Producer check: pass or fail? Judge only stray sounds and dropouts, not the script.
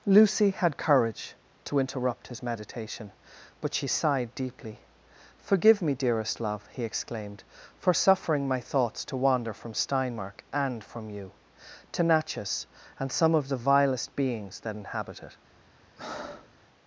fail